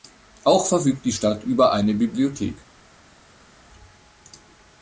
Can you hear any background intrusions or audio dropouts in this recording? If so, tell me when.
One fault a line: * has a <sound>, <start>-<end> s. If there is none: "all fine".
all fine